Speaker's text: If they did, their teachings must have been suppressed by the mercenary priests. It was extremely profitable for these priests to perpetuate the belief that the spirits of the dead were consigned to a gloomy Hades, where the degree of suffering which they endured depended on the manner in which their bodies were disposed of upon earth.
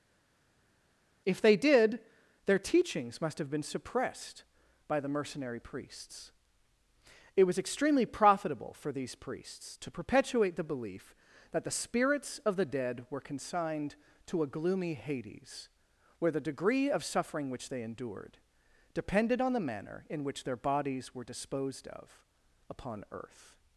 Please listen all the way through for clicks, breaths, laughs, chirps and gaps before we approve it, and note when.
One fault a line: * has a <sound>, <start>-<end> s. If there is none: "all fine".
all fine